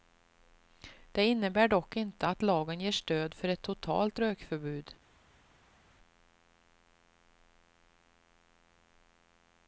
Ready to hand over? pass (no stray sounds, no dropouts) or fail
pass